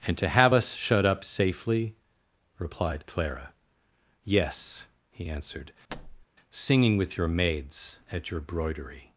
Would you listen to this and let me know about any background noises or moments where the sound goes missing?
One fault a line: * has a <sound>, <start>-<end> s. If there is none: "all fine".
* has a thud, 5.9-6.3 s